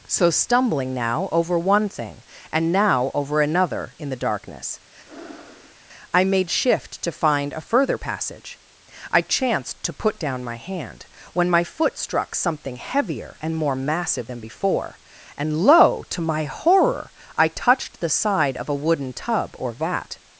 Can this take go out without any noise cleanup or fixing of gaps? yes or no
no